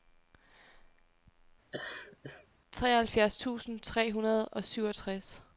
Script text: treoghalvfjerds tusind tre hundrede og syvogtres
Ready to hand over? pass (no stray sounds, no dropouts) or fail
fail